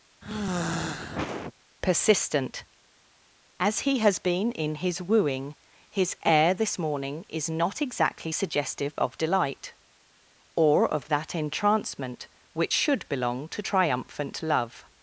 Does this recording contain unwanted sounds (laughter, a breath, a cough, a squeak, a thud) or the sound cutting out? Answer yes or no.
yes